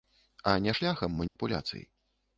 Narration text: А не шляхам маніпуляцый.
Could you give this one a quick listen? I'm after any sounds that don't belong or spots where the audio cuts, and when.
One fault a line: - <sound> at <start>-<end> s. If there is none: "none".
- dropout at 1.3-1.4 s